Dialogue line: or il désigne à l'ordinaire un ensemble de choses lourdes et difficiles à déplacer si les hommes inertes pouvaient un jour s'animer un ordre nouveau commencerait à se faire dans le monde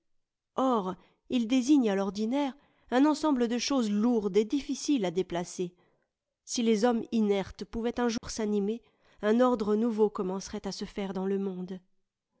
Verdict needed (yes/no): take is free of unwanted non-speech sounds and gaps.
no